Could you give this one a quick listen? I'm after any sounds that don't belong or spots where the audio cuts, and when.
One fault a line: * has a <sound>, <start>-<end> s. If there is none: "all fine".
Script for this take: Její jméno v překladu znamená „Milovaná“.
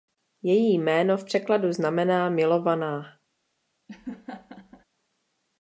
* has a laugh, 3.9-4.8 s